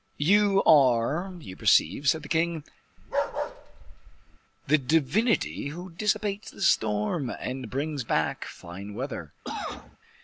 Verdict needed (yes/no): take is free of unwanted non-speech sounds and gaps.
no